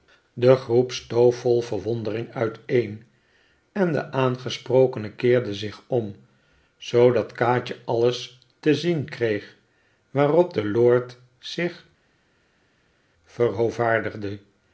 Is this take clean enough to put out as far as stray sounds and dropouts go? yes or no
yes